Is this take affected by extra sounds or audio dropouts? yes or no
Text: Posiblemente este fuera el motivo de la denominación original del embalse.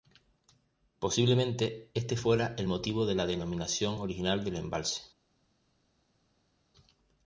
no